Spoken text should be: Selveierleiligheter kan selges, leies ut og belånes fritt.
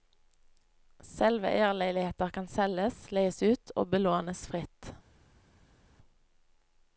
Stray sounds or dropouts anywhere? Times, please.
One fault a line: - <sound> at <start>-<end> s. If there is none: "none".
none